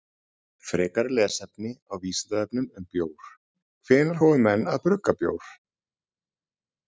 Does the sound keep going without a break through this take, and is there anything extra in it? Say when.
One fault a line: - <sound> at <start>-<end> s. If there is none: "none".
none